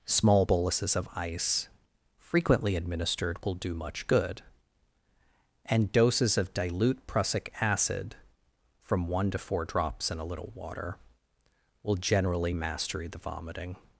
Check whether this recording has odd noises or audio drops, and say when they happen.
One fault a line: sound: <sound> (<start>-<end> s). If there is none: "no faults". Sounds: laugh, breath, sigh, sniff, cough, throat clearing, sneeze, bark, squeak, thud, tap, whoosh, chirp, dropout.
no faults